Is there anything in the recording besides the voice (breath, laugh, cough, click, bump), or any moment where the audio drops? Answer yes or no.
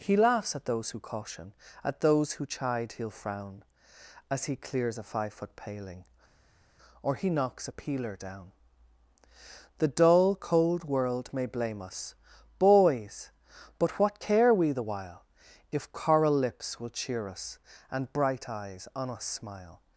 no